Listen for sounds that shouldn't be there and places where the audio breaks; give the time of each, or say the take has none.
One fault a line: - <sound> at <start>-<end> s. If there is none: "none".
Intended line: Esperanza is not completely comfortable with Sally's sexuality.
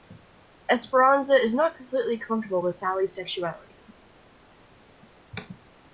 none